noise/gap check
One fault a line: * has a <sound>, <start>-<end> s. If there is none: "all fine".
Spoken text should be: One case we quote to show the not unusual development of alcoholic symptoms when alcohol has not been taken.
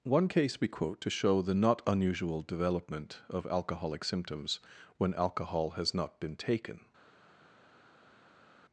all fine